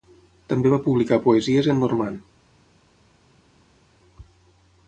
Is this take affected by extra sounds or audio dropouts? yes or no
no